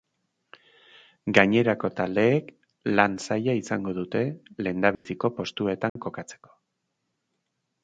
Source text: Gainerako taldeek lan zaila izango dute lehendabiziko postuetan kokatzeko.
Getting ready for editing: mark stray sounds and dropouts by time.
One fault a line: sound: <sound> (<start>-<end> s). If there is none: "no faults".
sound: dropout (4.9-5.1 s)
sound: dropout (5.9-6.0 s)